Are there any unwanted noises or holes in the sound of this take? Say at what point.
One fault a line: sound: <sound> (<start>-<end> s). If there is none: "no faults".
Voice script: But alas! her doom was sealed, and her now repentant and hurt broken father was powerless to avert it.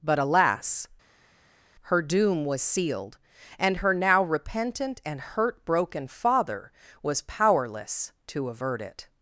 no faults